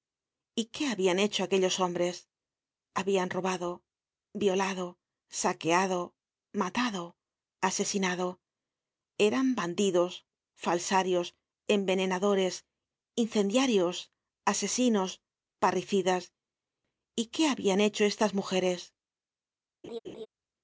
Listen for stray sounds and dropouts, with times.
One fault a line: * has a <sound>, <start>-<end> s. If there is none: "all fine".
* has a laugh, 19.8-20.3 s